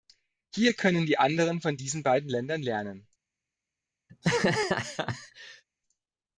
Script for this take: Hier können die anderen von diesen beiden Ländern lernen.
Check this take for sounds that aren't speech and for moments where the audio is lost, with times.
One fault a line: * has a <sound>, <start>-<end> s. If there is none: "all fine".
* has a laugh, 4.1-5.6 s